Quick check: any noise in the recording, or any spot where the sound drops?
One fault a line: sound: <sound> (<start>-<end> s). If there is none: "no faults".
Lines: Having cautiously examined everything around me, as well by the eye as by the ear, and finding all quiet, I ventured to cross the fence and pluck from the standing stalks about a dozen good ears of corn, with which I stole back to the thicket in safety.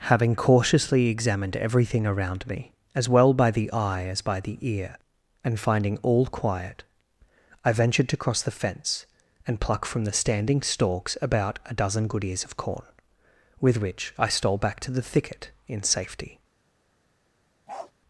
sound: bark (17.7-17.9 s)